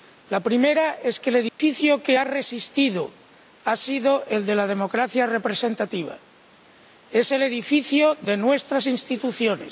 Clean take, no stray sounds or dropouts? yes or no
no